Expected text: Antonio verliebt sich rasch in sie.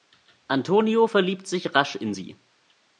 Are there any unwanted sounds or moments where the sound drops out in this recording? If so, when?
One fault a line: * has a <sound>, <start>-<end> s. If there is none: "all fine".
all fine